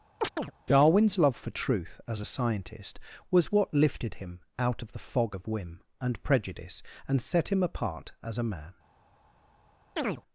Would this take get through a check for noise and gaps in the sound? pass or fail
fail